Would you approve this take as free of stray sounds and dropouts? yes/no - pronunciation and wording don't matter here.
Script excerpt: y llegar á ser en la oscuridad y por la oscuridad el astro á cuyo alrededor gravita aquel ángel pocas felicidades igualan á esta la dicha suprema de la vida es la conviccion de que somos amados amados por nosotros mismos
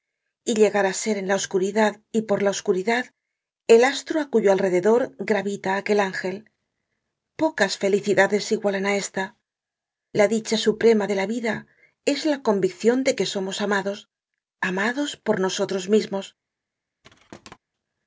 no